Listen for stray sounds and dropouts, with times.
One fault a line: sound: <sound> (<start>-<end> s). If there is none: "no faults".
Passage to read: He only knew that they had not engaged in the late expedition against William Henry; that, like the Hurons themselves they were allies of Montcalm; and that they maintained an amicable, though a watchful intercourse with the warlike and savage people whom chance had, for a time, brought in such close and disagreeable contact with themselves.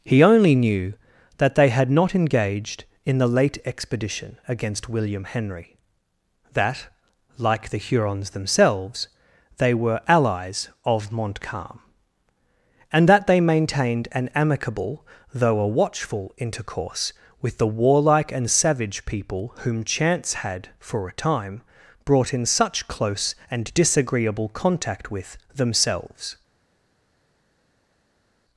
no faults